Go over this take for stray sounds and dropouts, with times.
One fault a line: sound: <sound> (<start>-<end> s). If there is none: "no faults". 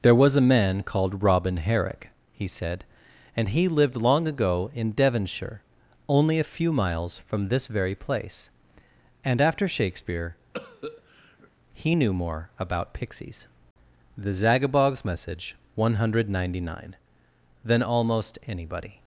sound: cough (10.5-11.5 s)